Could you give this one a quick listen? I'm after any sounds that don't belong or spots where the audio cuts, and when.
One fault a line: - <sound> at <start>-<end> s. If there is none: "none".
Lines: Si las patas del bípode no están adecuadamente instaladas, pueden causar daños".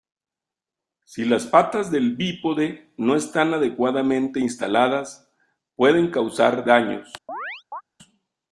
- chirp at 7.3-7.8 s